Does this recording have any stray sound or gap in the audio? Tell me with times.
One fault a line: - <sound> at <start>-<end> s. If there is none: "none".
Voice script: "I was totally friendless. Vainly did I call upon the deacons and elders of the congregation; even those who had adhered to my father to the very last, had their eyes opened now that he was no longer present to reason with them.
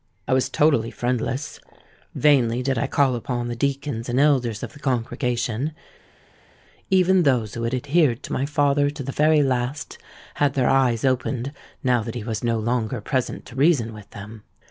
none